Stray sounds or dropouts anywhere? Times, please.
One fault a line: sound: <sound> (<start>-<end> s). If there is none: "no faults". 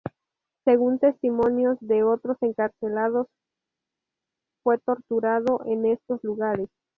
no faults